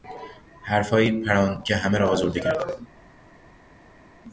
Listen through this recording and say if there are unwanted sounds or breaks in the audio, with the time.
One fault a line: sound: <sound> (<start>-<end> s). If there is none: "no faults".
no faults